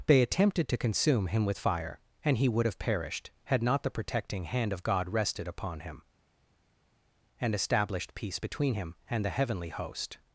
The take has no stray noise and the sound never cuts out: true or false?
true